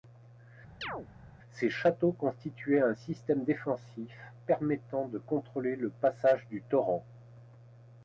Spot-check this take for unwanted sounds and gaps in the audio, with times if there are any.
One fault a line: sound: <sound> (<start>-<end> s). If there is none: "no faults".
sound: chirp (0.8-1.1 s)